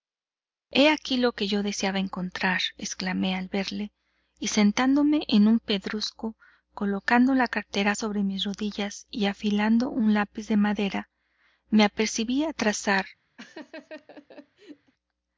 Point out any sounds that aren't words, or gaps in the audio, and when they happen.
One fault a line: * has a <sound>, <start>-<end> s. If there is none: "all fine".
* has a laugh, 13.4-14.9 s